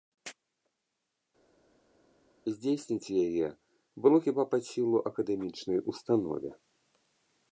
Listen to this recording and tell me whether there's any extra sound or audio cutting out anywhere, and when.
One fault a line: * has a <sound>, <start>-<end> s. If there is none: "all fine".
all fine